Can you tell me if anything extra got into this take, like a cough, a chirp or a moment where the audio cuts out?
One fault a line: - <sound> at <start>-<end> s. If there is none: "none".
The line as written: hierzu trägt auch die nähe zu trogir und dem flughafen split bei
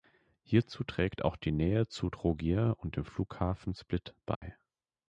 - dropout at 4.4-4.4 s